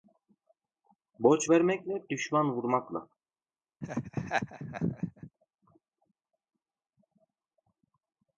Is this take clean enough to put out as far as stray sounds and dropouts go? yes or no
no